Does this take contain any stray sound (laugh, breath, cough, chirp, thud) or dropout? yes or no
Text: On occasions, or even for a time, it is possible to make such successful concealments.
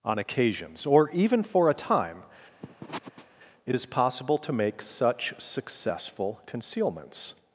yes